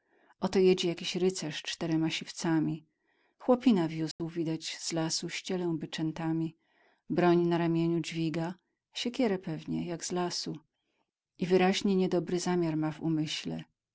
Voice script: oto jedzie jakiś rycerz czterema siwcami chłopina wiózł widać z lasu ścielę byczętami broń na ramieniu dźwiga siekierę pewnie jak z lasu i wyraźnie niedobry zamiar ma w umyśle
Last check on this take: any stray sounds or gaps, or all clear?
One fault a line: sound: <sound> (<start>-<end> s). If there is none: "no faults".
sound: dropout (4.1-4.2 s)